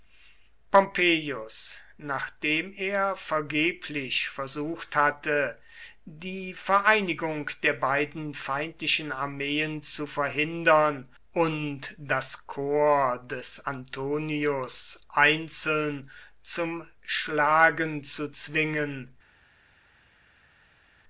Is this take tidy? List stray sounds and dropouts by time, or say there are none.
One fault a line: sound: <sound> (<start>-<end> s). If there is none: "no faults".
no faults